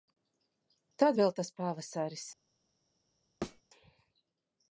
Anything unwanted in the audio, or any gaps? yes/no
yes